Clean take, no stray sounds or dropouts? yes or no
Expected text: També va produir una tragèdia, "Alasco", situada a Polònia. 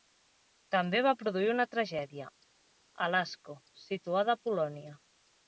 yes